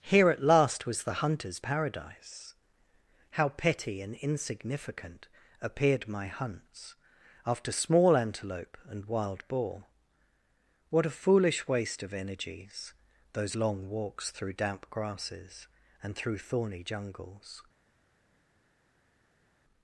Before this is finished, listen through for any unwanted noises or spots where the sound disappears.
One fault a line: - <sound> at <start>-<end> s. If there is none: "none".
none